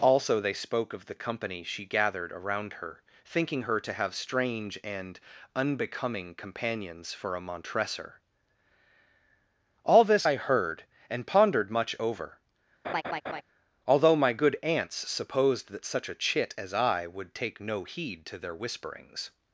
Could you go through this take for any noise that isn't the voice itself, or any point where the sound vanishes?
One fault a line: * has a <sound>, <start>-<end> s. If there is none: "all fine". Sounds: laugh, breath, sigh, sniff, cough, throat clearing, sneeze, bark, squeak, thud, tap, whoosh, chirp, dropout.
* has a laugh, 12.8-13.4 s